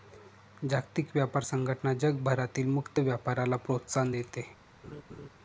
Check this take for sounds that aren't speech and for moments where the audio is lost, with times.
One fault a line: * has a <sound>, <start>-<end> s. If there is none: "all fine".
* has a laugh, 4.8-5.3 s